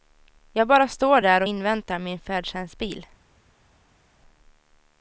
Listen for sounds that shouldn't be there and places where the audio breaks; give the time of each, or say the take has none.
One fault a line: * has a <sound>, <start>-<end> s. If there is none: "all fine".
all fine